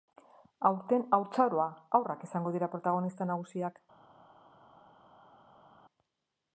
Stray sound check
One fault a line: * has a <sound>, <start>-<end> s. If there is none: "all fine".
all fine